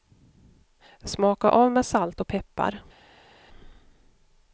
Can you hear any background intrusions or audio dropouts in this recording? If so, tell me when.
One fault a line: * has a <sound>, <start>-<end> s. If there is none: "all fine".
all fine